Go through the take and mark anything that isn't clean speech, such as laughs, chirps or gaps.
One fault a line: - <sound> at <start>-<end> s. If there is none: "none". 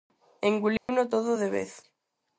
- dropout at 0.8-0.9 s